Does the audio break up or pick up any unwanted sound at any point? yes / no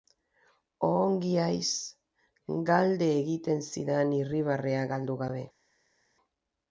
no